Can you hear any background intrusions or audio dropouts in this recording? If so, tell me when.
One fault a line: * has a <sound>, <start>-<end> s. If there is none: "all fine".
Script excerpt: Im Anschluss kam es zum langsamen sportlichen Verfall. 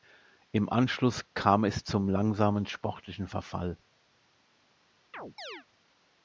* has a chirp, 5.1-5.7 s